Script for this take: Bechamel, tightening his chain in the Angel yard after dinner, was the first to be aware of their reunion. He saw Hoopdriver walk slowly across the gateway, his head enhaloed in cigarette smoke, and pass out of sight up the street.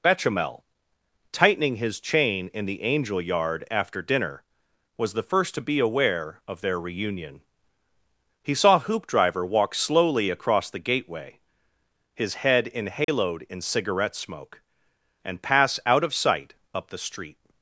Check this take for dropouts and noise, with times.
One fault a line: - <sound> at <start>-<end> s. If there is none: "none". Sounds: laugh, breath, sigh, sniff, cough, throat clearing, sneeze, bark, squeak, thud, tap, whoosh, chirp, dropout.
- dropout at 13.0-13.1 s